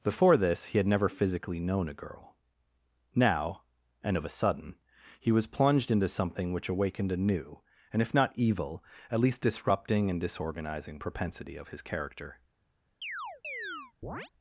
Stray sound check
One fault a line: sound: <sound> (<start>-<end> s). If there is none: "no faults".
sound: chirp (13.0-14.3 s)